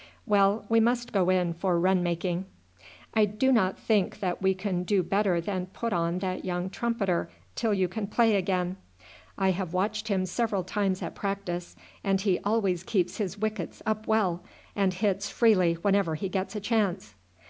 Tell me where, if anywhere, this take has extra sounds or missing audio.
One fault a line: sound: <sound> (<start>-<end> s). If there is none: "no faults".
no faults